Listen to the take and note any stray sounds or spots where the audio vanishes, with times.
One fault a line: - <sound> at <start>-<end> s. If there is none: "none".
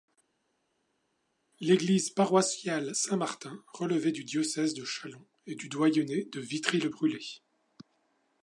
none